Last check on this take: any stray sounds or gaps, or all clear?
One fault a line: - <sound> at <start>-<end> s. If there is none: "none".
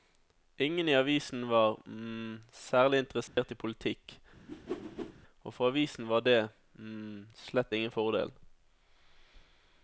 - dropout at 3.3-3.4 s
- whoosh at 4.5-5.1 s